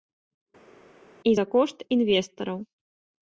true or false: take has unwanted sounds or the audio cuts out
false